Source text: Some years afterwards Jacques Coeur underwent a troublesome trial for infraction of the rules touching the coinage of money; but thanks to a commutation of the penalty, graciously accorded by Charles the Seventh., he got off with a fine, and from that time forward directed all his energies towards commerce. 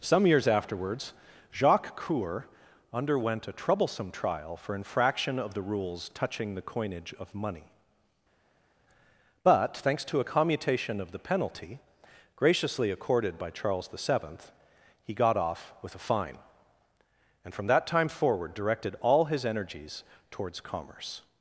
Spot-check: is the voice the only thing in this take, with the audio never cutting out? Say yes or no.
yes